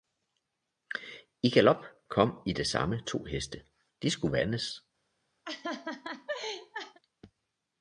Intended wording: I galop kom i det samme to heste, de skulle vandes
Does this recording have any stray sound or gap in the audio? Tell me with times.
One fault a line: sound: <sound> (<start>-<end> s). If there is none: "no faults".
sound: laugh (5.4-7.0 s)